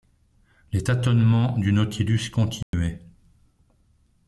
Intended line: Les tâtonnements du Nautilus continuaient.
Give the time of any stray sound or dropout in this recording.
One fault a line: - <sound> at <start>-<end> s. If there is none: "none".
- dropout at 2.6-2.7 s